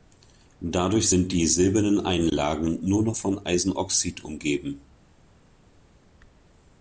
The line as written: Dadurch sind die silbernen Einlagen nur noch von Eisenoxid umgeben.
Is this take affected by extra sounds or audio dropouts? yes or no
no